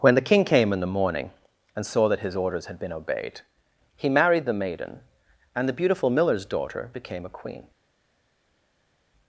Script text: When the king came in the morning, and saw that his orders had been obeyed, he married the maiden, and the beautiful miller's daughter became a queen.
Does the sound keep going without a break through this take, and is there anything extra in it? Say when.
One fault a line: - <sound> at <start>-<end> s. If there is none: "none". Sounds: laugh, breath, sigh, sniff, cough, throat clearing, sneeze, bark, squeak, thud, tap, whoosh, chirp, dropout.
none